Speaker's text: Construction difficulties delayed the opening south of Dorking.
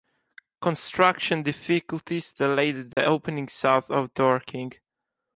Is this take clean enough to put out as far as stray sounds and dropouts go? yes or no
no